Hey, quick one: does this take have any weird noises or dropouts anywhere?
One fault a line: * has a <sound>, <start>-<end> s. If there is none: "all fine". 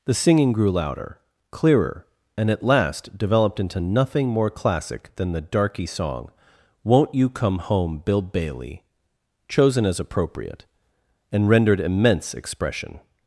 all fine